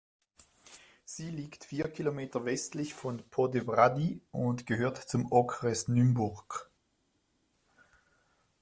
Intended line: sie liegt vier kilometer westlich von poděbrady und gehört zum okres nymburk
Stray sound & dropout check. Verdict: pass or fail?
pass